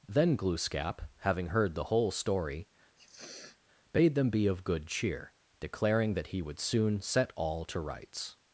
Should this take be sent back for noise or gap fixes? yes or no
yes